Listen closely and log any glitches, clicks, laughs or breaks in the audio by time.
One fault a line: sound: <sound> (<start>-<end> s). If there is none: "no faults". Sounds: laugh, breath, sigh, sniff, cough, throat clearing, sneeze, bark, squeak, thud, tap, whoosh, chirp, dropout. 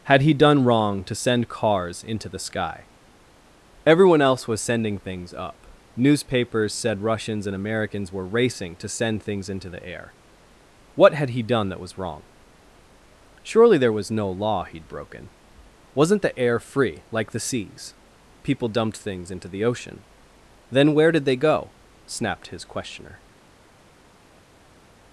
no faults